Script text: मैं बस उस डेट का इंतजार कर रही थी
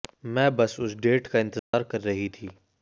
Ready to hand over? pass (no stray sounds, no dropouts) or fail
fail